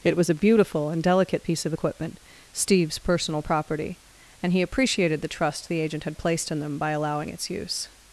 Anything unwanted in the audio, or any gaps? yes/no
no